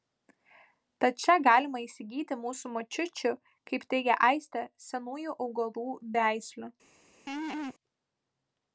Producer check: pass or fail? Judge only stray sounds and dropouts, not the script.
fail